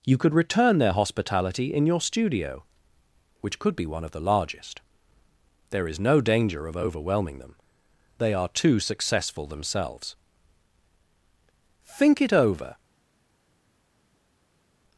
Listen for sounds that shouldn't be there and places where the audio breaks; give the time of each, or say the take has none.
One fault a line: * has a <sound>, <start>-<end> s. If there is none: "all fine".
all fine